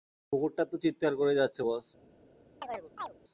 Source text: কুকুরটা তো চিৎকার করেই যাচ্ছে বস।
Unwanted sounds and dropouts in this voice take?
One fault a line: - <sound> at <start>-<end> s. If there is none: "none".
- chirp at 2.6-3.1 s